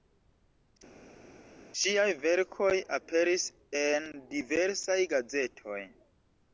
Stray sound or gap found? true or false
false